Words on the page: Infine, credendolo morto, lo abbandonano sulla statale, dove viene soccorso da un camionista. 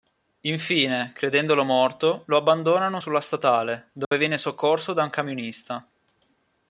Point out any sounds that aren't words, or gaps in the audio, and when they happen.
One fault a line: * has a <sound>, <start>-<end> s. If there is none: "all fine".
* has a dropout, 4.0-4.1 s